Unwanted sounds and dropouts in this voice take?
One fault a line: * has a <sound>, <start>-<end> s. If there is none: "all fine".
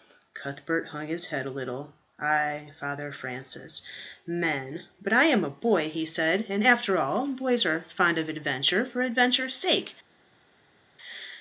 all fine